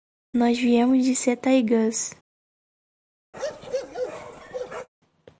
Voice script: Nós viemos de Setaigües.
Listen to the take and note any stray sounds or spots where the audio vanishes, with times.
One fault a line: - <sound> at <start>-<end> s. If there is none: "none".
- bark at 3.3-4.9 s